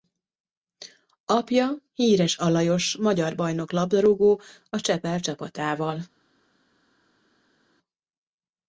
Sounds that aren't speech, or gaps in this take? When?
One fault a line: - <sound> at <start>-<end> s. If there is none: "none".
none